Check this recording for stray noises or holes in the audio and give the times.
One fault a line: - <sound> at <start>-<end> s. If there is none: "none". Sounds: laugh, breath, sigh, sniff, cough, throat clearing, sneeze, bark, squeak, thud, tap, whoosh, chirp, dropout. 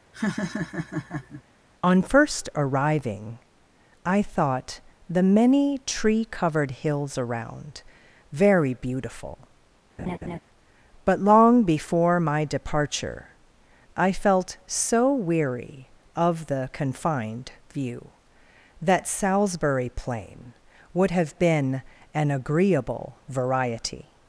- laugh at 0.1-1.4 s
- laugh at 10.0-10.4 s